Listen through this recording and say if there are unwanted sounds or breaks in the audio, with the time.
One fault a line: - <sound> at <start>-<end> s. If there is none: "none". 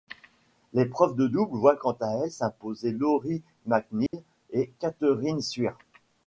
- dropout at 4.1-4.1 s